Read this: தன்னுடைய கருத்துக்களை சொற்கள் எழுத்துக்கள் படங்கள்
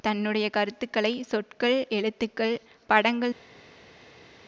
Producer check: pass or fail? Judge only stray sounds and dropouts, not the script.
pass